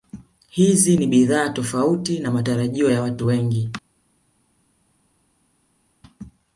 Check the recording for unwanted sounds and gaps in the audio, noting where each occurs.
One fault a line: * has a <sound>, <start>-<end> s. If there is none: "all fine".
all fine